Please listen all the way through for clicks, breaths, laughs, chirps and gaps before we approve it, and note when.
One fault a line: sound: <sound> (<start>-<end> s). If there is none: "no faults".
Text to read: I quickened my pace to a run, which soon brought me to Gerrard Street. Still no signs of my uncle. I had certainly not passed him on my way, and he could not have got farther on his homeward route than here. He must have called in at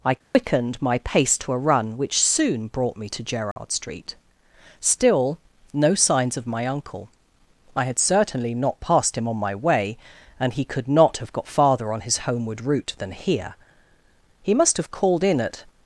sound: dropout (0.2-0.3 s)
sound: dropout (3.5-3.6 s)